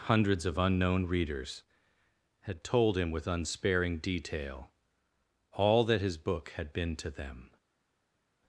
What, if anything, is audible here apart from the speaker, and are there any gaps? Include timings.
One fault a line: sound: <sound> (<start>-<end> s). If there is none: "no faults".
no faults